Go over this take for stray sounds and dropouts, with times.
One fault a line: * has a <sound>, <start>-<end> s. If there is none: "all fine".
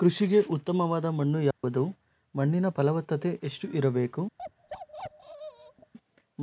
* has a dropout, 1.5-1.6 s
* has a bark, 4.4-5.9 s